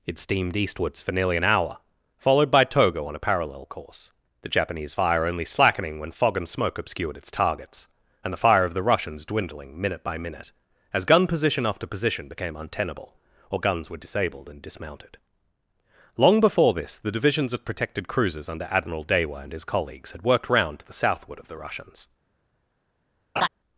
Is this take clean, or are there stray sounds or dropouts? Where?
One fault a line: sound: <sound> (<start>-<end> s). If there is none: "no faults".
sound: laugh (23.4-23.5 s)